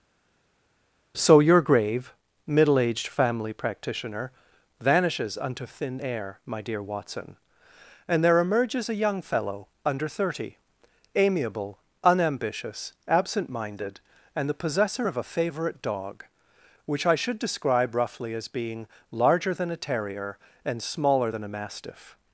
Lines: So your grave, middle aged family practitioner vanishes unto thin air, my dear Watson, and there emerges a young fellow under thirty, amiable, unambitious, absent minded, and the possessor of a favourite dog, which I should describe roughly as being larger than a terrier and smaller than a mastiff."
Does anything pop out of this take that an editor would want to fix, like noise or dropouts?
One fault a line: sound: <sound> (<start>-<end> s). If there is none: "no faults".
no faults